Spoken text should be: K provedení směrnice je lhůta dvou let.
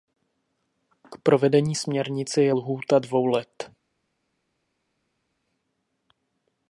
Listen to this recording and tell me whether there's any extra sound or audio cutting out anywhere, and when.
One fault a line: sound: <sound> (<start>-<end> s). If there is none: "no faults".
no faults